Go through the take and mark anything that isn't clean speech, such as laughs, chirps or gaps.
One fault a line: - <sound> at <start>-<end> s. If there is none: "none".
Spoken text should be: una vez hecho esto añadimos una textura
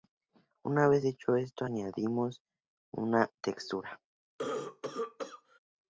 - cough at 4.4-5.6 s